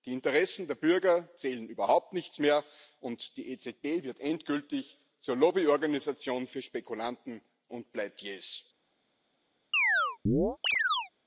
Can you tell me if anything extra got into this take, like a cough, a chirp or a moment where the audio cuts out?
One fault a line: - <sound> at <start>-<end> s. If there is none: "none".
- chirp at 9.7-11.1 s